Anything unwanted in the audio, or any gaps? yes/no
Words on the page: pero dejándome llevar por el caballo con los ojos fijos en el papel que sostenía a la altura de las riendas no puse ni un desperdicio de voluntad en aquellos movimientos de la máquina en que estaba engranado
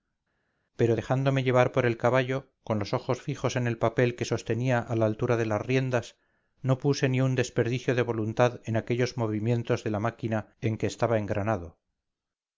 no